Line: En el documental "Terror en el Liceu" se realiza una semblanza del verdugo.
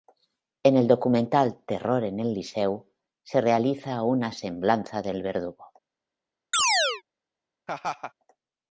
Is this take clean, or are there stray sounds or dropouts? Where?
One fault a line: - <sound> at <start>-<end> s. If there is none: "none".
- chirp at 6.5-7.0 s
- laugh at 7.7-8.1 s